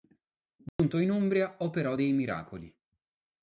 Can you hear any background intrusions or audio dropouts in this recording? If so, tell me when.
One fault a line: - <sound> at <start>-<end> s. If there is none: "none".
- dropout at 0.7-0.8 s